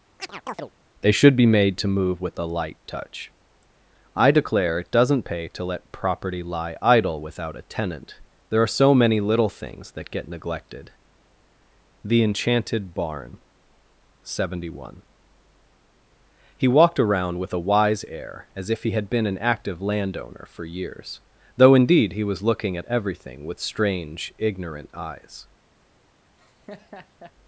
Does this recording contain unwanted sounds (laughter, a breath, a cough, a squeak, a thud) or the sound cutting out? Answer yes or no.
yes